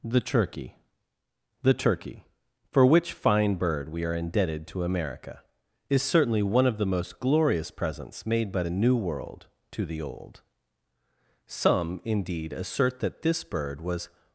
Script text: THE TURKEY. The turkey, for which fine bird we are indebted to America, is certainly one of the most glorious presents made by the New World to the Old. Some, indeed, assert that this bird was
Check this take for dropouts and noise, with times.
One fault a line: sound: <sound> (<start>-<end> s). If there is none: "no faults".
no faults